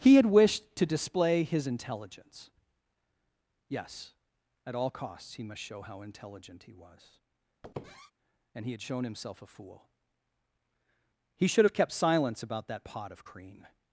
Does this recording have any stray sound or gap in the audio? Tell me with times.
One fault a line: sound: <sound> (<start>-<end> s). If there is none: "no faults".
sound: squeak (7.6-8.1 s)